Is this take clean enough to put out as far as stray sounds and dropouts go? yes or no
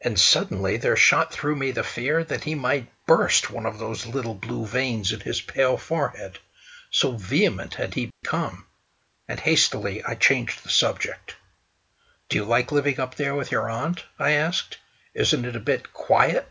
no